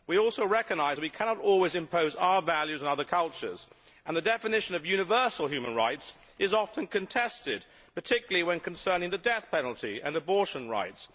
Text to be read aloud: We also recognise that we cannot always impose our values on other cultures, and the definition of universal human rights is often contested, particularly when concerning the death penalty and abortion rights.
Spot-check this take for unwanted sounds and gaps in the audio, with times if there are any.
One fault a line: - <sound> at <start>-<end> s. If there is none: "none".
none